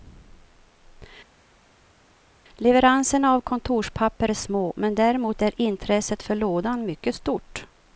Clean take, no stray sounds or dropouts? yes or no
yes